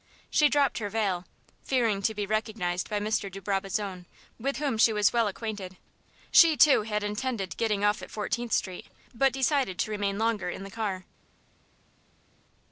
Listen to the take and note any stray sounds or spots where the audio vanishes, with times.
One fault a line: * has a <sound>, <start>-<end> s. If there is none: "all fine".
all fine